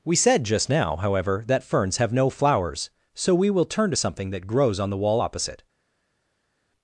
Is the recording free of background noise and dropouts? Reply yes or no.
yes